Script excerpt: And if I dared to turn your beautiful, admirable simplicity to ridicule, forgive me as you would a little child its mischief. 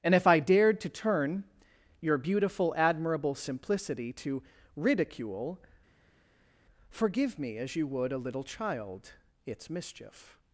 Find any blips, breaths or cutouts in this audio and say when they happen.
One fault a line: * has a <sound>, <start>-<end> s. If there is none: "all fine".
all fine